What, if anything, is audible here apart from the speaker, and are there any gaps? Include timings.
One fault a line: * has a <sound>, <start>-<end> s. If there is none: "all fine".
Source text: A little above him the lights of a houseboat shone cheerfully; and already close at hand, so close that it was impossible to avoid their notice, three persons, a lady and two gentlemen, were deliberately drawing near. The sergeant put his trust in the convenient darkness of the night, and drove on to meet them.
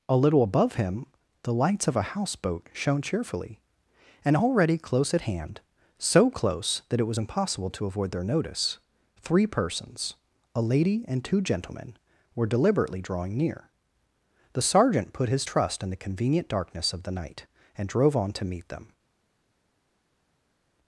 all fine